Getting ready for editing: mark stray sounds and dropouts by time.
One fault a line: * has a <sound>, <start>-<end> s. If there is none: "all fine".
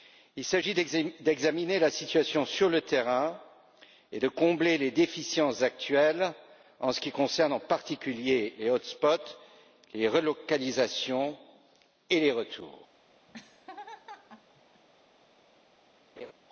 * has a laugh, 13.3-14.8 s
* has a laugh, 16.2-16.3 s